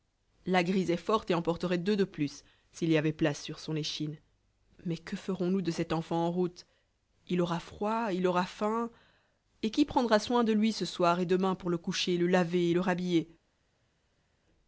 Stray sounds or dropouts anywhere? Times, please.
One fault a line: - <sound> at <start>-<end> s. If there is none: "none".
none